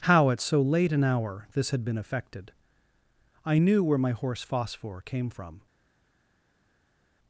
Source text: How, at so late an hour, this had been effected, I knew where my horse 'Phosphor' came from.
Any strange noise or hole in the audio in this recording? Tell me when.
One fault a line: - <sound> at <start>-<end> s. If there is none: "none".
none